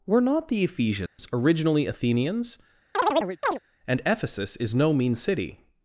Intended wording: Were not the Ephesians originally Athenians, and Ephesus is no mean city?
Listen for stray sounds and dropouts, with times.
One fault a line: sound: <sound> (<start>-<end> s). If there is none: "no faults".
sound: dropout (1.1-1.2 s)
sound: chirp (2.9-3.6 s)